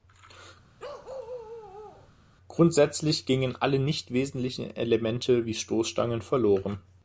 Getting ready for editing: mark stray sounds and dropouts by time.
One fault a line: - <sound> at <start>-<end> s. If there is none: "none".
- bark at 0.8-2.1 s